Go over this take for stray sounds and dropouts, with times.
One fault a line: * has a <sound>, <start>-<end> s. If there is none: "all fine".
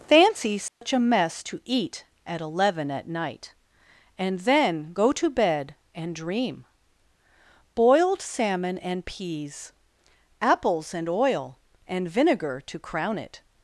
* has a dropout, 0.7-0.8 s